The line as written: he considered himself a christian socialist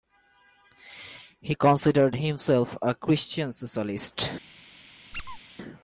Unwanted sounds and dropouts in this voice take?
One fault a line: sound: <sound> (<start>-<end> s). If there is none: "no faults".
sound: squeak (5.1-5.4 s)